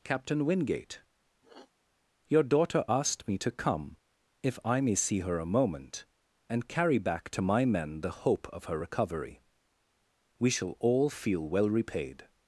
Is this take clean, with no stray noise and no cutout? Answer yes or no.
no